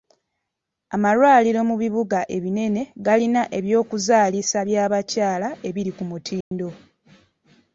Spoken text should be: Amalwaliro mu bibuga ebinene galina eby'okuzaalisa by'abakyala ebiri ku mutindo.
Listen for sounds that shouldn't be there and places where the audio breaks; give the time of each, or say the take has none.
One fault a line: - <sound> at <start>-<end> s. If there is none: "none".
- dropout at 6.4-6.5 s